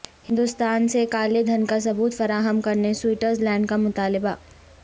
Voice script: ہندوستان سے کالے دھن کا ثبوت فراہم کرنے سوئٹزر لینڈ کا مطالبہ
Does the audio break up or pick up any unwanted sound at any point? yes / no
no